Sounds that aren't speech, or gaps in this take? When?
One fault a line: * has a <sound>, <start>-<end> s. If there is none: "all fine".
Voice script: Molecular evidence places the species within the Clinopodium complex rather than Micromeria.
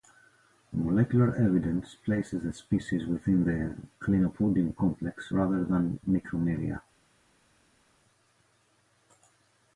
all fine